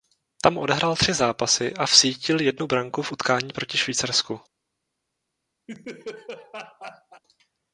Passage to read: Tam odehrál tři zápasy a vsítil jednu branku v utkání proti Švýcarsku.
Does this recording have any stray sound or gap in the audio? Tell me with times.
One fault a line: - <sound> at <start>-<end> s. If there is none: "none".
- laugh at 5.7-7.2 s